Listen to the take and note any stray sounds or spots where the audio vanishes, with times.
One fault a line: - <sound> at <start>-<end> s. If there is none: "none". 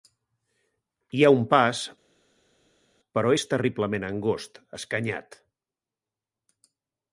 none